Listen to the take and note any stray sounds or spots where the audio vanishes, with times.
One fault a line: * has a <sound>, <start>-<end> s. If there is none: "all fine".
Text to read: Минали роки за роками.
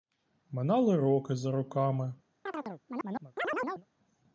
* has a chirp, 2.5-3.9 s